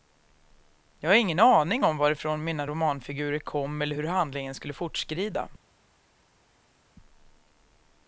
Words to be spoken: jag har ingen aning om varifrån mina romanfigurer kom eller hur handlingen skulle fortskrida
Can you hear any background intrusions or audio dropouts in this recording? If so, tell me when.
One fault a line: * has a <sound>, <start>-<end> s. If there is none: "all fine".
all fine